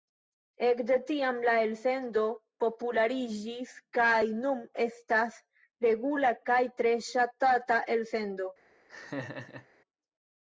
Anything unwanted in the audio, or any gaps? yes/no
yes